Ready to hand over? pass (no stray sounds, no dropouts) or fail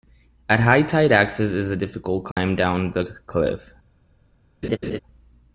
fail